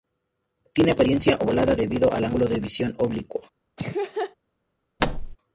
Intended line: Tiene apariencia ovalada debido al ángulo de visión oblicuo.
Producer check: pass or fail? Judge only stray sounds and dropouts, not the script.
fail